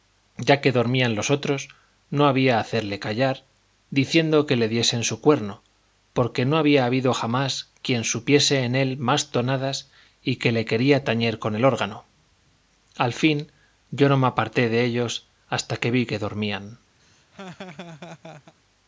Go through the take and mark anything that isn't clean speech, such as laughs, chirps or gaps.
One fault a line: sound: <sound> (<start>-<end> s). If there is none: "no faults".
sound: laugh (17.0-18.5 s)